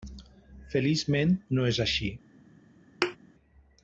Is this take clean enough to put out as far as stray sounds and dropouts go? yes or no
no